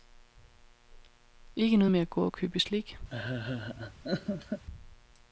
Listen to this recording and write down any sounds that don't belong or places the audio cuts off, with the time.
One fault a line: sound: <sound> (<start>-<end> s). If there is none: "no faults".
sound: laugh (3.1-4.6 s)